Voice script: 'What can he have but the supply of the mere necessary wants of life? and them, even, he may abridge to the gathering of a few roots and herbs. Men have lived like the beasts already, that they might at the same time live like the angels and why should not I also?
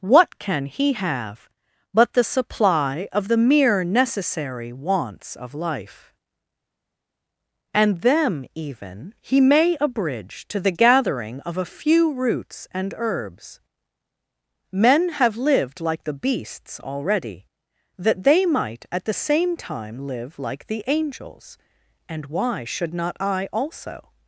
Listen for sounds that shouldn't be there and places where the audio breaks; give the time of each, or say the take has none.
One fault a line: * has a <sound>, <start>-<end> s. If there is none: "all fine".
all fine